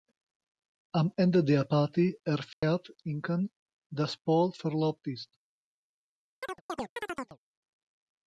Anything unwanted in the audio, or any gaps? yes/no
yes